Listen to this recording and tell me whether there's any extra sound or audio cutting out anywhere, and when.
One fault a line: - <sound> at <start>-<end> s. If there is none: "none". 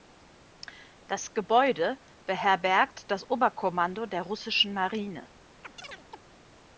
- chirp at 5.6-6.2 s